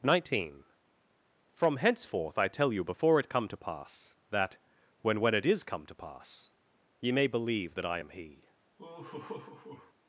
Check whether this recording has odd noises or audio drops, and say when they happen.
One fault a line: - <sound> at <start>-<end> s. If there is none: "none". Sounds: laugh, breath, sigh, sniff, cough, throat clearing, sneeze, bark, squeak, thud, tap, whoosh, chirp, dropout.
- laugh at 8.8-9.9 s